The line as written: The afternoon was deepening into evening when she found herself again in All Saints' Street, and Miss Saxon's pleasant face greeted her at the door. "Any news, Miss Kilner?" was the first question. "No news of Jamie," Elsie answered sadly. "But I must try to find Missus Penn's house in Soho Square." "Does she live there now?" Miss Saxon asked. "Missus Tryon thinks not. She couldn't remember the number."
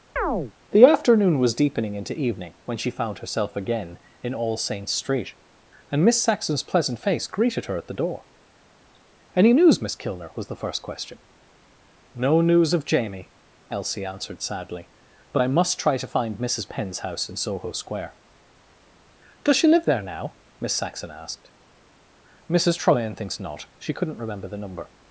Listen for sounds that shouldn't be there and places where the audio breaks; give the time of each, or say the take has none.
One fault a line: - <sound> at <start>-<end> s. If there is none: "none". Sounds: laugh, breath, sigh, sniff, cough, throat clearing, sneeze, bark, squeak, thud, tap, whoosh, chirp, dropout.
- chirp at 0.2-0.5 s